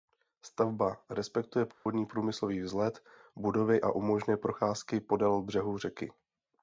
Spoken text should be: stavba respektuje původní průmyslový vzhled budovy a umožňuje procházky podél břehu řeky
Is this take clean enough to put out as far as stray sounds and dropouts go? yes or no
no